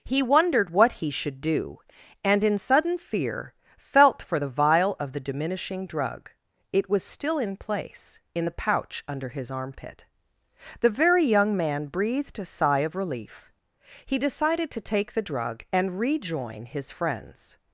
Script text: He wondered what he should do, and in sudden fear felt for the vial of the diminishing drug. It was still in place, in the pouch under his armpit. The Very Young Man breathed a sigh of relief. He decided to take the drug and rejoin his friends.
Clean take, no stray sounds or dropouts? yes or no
yes